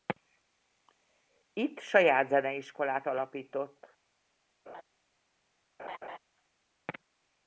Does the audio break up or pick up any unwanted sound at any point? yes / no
yes